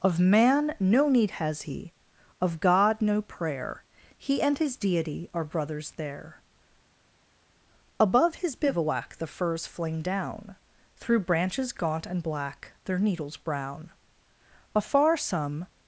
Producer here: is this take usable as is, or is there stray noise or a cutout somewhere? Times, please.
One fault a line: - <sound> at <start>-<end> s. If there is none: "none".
none